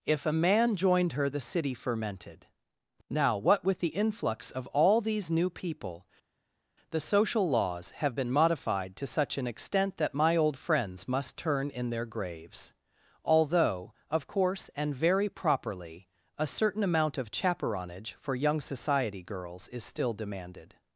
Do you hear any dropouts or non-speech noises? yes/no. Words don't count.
no